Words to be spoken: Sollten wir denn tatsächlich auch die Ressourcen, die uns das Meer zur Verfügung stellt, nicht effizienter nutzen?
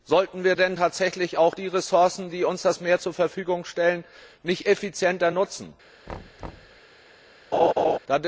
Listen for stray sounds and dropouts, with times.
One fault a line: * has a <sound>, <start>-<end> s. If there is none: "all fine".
* has a thud, 6.1-6.8 s
* has a laugh, 7.5-8.0 s